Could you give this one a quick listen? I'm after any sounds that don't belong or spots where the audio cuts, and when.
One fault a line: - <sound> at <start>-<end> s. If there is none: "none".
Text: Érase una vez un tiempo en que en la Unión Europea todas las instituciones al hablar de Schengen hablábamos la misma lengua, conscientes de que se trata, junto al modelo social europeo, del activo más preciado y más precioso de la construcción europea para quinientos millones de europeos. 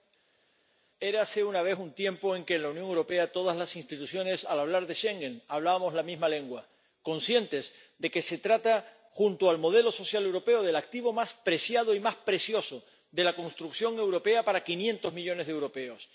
none